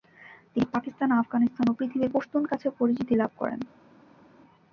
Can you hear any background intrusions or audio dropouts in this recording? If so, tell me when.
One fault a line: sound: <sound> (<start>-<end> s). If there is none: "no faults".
no faults